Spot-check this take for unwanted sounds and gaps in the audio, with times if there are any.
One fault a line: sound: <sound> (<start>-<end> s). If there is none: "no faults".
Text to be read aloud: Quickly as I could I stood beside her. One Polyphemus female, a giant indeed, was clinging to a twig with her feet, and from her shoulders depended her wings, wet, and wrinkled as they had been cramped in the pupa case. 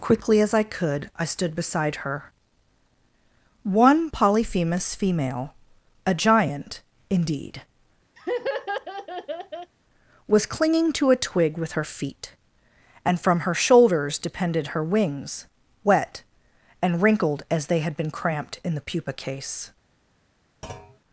sound: laugh (8.2-9.7 s)
sound: thud (20.6-21.0 s)